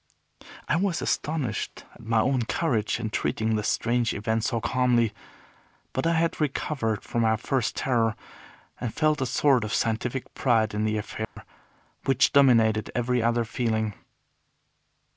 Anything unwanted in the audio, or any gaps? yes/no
yes